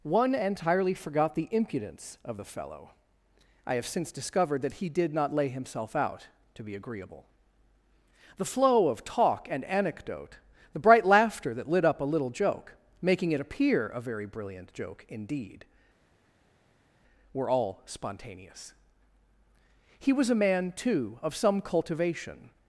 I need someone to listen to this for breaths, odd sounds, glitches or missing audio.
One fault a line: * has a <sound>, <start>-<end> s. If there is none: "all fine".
all fine